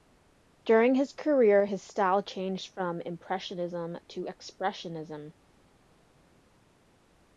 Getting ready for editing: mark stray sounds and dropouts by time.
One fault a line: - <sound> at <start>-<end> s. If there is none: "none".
none